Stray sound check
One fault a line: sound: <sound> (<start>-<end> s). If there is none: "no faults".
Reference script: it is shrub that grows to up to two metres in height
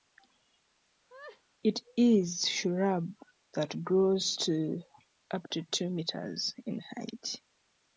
sound: laugh (1.1-1.4 s)